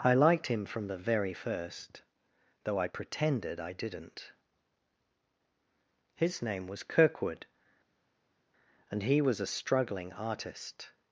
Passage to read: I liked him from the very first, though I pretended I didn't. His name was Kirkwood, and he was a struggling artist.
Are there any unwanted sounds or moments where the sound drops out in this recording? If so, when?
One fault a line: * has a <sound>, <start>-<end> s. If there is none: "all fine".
all fine